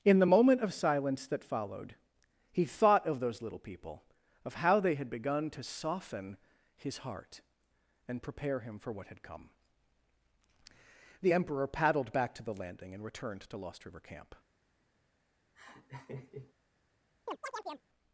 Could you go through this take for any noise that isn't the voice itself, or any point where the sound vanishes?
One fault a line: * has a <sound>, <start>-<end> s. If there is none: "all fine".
* has a laugh, 15.6-16.5 s
* has a chirp, 17.3-17.9 s